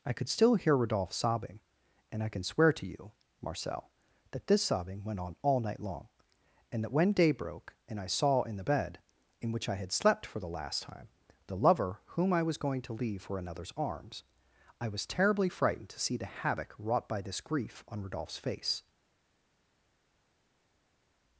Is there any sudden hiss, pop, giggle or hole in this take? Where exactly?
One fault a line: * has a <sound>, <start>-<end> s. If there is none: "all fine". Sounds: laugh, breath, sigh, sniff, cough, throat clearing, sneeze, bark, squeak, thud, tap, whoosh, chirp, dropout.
all fine